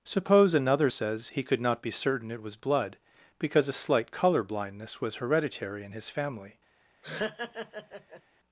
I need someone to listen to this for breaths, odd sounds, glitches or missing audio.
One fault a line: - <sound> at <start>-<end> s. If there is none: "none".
- laugh at 7.0-8.2 s